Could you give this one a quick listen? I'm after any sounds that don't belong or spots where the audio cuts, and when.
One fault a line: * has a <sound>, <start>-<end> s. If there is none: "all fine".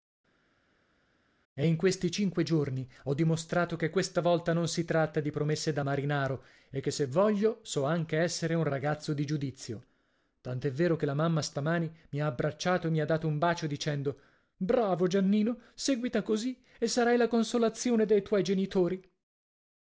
all fine